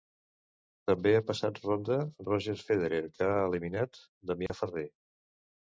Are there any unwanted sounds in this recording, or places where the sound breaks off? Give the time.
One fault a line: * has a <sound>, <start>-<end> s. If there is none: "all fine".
* has a dropout, 4.5-4.5 s